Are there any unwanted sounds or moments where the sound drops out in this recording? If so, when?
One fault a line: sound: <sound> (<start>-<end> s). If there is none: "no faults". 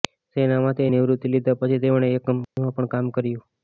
sound: dropout (2.4-2.6 s)